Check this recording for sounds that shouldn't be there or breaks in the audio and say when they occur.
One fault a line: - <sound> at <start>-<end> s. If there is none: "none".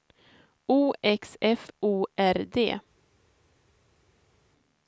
none